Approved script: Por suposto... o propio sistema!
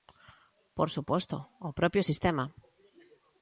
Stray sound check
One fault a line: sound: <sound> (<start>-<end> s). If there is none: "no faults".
no faults